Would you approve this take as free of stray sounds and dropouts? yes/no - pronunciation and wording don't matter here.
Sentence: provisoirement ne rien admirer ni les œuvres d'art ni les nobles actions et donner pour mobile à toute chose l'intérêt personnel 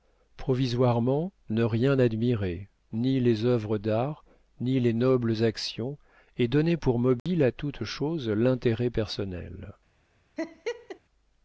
no